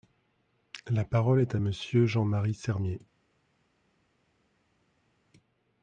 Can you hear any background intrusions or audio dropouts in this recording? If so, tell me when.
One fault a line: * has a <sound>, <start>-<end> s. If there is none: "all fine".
all fine